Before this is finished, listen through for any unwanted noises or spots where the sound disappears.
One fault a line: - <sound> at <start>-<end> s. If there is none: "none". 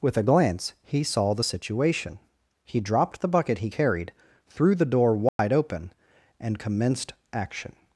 - dropout at 5.3-5.4 s